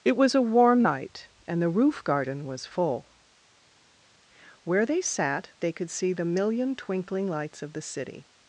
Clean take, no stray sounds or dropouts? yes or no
yes